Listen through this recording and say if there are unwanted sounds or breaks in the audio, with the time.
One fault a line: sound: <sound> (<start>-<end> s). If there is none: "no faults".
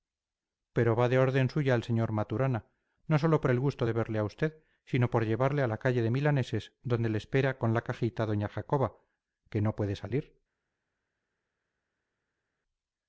no faults